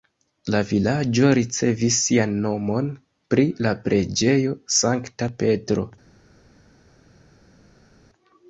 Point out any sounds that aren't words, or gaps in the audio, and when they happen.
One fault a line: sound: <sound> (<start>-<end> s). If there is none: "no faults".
no faults